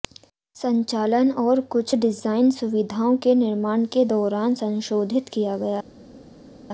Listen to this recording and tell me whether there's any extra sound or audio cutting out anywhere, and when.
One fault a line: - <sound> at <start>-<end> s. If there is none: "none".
none